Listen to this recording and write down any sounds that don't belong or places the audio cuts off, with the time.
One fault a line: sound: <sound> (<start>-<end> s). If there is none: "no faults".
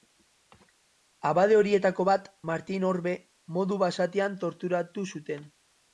no faults